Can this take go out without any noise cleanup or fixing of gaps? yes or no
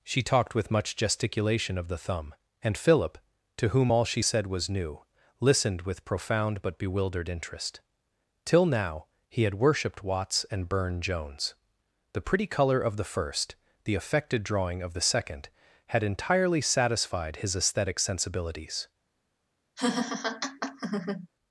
no